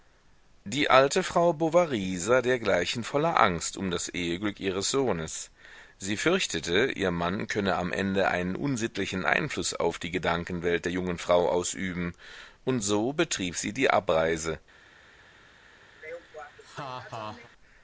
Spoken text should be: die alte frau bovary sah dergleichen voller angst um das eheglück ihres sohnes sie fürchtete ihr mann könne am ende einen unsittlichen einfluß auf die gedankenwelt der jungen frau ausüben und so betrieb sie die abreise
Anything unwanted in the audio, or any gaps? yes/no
yes